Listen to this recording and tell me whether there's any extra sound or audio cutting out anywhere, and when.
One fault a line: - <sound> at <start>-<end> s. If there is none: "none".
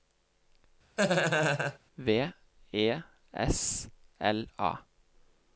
- laugh at 1.0-1.8 s